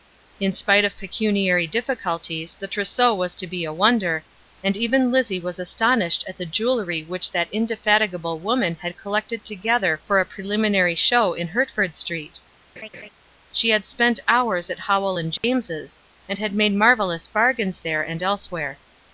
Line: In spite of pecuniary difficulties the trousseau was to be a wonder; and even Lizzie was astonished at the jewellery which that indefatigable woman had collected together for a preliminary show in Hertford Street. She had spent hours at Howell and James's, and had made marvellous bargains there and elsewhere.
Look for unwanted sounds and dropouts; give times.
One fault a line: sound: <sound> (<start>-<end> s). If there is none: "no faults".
sound: laugh (12.8-13.1 s)
sound: dropout (15.4-15.4 s)